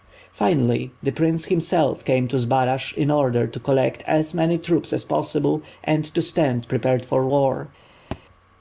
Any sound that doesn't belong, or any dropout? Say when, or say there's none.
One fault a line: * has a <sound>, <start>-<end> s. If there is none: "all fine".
* has a thud, 8.1-8.2 s